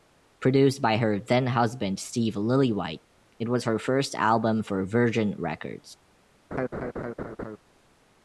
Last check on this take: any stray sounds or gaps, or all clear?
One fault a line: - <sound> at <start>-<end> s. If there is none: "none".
- laugh at 6.5-7.6 s